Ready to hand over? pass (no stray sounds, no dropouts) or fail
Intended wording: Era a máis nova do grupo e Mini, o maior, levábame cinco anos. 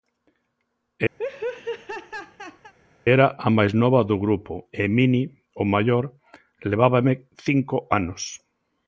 fail